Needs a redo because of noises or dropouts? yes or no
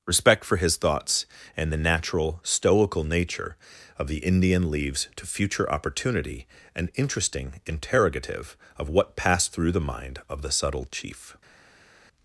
no